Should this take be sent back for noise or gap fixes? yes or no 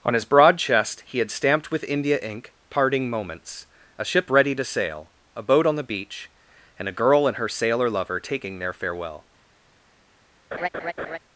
yes